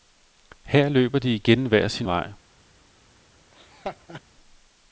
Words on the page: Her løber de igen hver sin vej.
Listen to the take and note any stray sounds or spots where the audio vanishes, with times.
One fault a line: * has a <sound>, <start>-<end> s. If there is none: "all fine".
* has a laugh, 3.5-4.2 s